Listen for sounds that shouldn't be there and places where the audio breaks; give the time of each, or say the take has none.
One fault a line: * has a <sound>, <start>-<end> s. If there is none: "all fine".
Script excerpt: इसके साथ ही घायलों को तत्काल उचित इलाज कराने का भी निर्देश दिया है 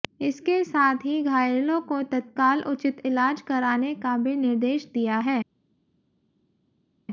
all fine